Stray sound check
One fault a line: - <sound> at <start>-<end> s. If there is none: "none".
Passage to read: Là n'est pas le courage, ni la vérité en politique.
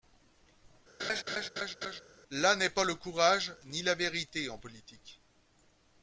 - laugh at 1.0-2.0 s